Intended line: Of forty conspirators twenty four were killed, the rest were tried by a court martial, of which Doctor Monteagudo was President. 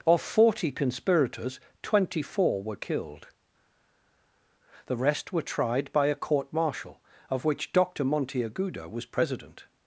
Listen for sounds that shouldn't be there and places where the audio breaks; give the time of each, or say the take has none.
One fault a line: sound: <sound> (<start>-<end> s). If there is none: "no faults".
no faults